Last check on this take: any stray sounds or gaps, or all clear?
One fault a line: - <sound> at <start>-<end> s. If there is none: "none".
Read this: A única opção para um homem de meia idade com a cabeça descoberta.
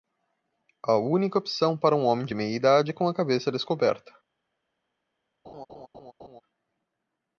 - laugh at 5.4-6.4 s